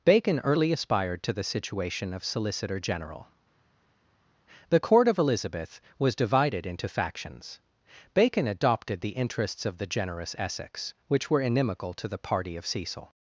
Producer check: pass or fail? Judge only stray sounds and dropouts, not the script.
pass